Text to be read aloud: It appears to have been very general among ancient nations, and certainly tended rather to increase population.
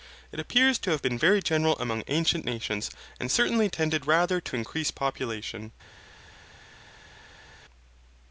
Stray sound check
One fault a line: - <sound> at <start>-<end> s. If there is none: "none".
none